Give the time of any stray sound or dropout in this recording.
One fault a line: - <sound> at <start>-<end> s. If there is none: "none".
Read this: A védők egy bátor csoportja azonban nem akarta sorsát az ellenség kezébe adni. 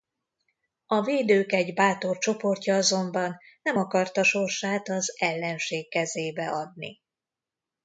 none